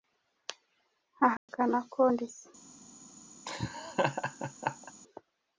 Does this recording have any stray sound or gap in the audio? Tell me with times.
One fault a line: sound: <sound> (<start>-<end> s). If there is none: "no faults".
sound: dropout (1.4-1.5 s)
sound: laugh (3.5-4.9 s)